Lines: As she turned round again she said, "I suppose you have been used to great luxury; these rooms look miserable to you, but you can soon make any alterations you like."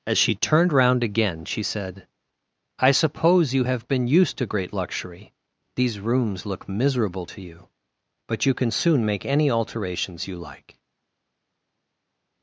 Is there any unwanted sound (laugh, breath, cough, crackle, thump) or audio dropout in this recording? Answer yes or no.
no